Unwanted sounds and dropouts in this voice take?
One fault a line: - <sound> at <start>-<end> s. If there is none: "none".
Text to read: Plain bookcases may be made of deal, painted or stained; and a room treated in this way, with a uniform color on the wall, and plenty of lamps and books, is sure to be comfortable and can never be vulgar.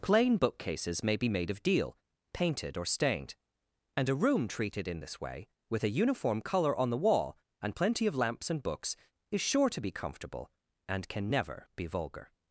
none